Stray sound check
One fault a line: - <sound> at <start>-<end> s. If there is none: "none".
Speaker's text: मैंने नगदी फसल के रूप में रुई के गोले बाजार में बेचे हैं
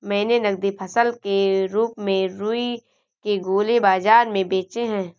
none